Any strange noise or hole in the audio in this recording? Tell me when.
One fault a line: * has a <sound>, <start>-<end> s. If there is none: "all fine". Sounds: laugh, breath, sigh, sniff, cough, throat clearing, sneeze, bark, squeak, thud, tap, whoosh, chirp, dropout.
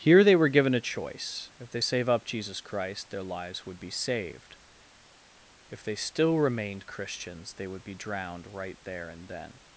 all fine